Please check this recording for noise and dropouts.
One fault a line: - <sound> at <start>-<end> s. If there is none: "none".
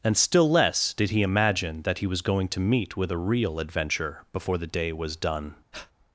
- breath at 5.7-5.9 s